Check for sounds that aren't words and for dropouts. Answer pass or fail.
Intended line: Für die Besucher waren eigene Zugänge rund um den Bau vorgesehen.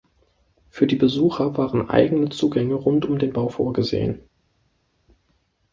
pass